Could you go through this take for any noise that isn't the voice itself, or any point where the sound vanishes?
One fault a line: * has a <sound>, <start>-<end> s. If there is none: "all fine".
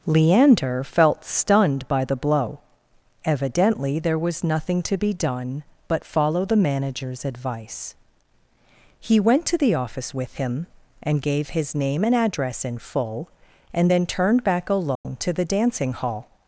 * has a dropout, 15.0-15.0 s